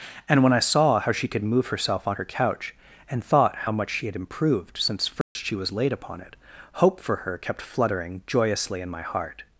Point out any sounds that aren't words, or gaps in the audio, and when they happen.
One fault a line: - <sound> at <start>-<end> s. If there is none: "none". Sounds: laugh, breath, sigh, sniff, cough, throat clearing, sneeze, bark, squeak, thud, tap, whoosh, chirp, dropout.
- dropout at 5.2-5.4 s